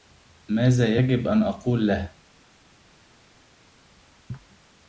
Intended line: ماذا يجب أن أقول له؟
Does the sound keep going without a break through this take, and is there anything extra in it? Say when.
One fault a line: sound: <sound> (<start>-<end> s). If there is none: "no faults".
no faults